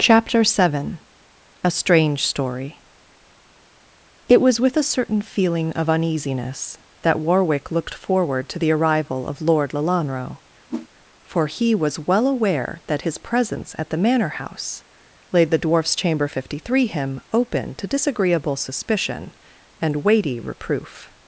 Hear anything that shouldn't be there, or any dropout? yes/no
yes